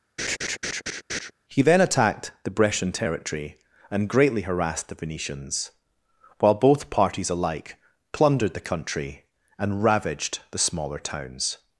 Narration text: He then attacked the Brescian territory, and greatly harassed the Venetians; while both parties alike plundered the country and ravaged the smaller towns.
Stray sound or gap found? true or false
true